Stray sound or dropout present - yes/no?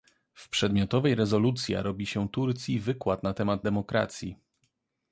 no